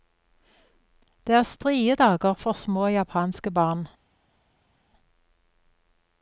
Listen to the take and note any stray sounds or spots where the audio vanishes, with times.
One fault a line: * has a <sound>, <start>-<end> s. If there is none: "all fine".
all fine